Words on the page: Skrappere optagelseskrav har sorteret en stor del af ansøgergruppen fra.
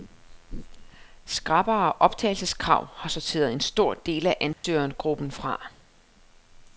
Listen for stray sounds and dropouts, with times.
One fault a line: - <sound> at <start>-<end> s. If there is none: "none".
- dropout at 4.5-4.6 s